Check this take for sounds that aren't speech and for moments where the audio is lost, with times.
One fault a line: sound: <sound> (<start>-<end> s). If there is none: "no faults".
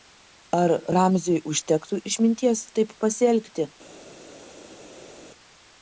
no faults